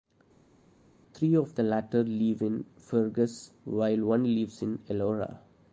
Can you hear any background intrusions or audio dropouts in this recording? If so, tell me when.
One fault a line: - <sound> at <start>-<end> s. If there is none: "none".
none